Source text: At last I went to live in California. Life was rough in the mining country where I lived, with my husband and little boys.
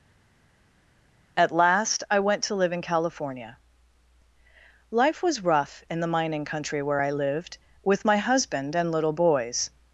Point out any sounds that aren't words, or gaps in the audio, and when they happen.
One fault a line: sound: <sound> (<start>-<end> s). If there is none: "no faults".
no faults